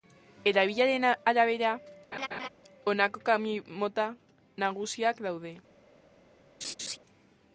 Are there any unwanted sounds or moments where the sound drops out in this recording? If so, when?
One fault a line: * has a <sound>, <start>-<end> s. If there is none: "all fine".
* has a laugh, 2.1-2.5 s
* has a laugh, 6.6-7.0 s